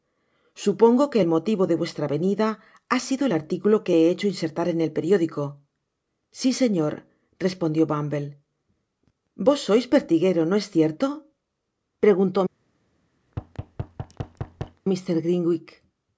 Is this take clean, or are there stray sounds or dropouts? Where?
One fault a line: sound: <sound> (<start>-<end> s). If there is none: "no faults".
sound: thud (13.3-14.8 s)